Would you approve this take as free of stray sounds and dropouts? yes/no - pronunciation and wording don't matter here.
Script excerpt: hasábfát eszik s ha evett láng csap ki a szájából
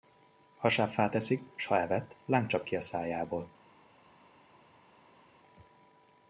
yes